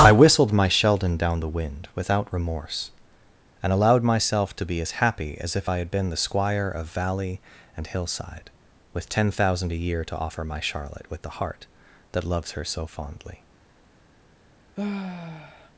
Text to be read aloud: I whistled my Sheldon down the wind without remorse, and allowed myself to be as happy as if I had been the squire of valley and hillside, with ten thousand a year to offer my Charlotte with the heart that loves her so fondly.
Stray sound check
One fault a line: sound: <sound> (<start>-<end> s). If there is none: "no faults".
sound: sigh (14.8-15.7 s)